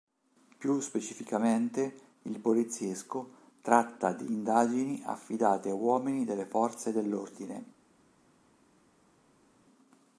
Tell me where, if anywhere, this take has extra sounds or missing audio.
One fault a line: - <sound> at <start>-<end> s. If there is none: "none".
none